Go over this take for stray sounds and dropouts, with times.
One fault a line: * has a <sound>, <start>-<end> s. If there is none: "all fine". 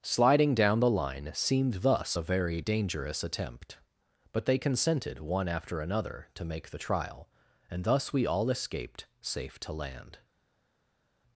all fine